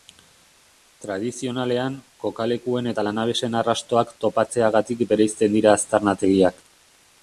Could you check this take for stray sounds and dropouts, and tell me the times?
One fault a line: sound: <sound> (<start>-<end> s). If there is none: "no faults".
no faults